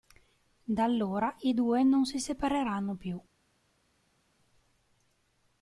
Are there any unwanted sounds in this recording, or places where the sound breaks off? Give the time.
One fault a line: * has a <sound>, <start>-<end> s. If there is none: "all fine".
all fine